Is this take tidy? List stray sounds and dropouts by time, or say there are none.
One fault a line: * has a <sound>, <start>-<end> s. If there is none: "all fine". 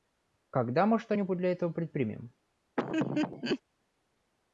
* has a laugh, 2.8-3.6 s